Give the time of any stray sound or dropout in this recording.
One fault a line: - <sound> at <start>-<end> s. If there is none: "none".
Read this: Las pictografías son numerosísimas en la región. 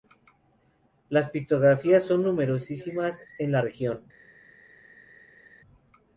none